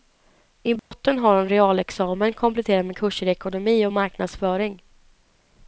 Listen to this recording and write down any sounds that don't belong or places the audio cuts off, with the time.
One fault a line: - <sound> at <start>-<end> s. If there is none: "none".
- dropout at 0.8-0.9 s